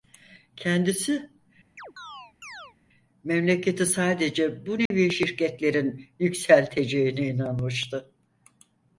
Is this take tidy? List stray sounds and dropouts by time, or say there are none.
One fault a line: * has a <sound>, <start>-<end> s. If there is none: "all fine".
* has a chirp, 1.8-2.8 s
* has a dropout, 4.9-4.9 s